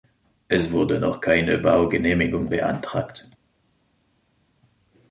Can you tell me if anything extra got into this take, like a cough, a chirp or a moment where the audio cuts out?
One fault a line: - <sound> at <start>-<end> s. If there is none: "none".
none